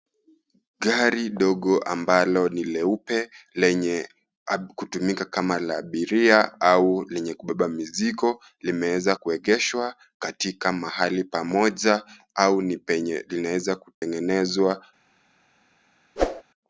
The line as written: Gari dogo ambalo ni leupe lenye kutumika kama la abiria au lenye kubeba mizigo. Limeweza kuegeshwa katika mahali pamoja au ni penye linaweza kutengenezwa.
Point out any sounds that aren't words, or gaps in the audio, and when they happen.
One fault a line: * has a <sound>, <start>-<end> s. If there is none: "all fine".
* has a dropout, 13.9-14.0 s
* has a whoosh, 16.2-16.4 s